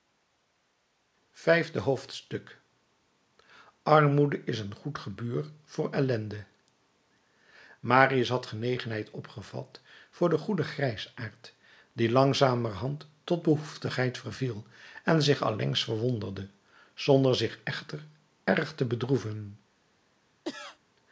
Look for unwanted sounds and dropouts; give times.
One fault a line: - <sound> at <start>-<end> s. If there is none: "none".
- cough at 20.4-20.8 s